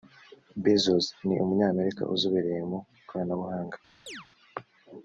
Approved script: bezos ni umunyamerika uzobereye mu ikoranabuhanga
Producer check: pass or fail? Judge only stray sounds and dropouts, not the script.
fail